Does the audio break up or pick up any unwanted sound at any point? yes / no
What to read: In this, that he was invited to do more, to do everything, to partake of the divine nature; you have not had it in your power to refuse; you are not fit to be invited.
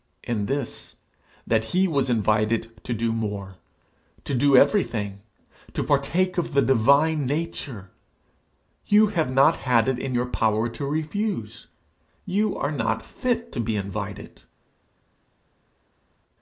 no